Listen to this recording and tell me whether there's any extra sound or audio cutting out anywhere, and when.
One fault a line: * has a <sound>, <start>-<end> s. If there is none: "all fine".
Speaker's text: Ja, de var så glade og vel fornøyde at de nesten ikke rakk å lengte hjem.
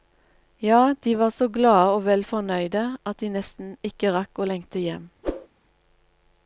* has a whoosh, 5.2-5.5 s